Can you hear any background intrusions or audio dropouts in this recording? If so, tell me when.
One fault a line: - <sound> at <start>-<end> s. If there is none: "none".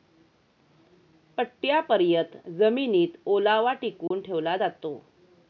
- dropout at 4.1-4.1 s